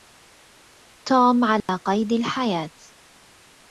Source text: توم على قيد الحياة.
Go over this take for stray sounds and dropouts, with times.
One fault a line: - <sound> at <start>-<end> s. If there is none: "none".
- dropout at 1.6-1.7 s